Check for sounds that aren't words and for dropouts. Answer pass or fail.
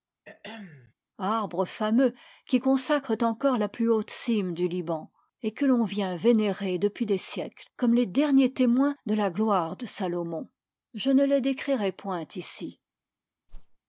fail